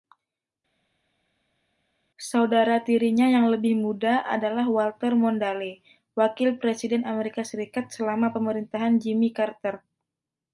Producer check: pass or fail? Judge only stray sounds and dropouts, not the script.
pass